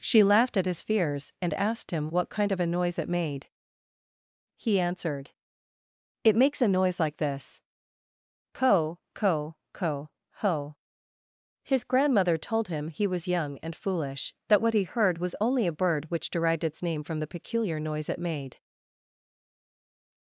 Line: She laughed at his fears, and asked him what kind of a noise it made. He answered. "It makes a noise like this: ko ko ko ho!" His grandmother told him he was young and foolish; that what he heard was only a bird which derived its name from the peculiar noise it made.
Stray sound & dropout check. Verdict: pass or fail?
pass